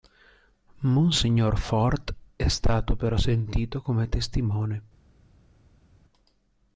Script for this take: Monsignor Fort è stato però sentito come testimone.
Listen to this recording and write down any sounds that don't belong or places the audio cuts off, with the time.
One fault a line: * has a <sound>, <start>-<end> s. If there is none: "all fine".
all fine